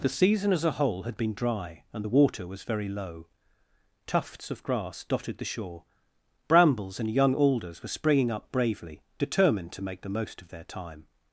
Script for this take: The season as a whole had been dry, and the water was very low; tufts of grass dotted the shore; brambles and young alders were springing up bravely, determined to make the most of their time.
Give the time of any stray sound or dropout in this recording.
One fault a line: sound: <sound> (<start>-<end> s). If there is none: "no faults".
no faults